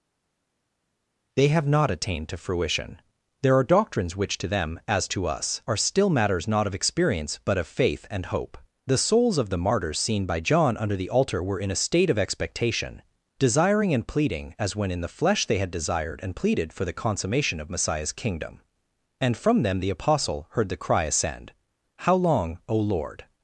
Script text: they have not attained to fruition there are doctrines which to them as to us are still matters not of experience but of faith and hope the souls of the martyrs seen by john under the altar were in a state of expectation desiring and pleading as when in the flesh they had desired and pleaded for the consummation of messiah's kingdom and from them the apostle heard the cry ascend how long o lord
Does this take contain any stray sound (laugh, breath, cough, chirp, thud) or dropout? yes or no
no